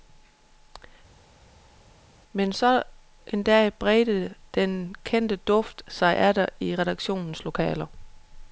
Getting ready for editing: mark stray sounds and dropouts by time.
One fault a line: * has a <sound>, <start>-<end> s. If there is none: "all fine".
all fine